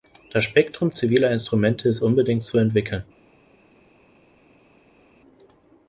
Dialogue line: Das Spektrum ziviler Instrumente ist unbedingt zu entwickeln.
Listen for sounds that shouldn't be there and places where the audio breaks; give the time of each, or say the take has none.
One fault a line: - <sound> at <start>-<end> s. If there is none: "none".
none